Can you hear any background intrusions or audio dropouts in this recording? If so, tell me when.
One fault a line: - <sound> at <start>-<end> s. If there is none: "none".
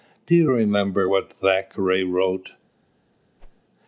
- whoosh at 3.4-3.6 s